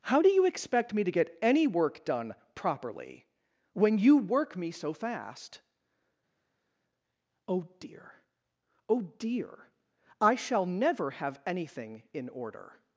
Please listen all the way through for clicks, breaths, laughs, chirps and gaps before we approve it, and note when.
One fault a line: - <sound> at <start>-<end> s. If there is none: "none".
none